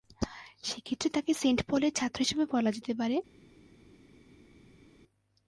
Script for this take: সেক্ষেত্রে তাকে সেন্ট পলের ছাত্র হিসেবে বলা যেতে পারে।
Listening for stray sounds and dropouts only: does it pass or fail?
pass